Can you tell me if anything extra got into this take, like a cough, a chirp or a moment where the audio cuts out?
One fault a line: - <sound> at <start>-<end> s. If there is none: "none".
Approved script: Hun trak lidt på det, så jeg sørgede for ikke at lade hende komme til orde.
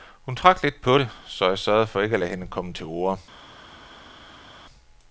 none